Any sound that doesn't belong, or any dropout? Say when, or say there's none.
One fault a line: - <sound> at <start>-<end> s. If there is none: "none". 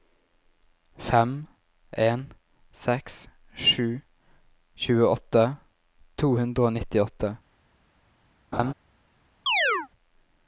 - laugh at 8.5-8.7 s
- chirp at 9.5-9.9 s